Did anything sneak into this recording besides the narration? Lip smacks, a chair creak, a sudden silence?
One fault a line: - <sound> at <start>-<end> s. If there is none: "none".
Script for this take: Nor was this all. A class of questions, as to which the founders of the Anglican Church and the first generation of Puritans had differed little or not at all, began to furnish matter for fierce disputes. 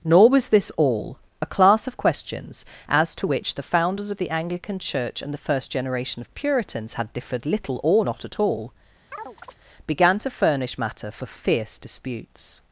- chirp at 9.1-9.6 s